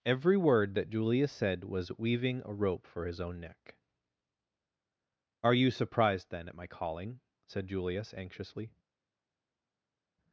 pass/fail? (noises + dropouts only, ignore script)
pass